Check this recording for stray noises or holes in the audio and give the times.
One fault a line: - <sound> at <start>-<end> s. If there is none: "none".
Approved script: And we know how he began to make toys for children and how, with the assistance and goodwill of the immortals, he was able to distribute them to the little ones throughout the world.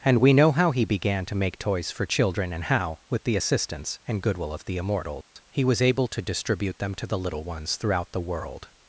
- dropout at 5.2-5.4 s